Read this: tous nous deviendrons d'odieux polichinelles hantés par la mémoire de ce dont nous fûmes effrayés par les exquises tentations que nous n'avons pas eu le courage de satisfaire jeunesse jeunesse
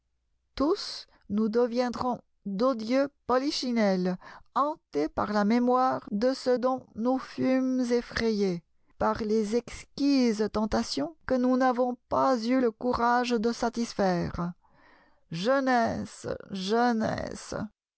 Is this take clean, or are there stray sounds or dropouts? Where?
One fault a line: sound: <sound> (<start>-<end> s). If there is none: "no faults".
no faults